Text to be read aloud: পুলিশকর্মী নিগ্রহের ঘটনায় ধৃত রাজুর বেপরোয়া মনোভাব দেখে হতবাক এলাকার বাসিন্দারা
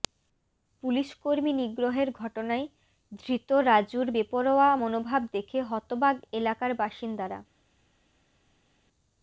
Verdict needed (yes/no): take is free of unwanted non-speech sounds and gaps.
yes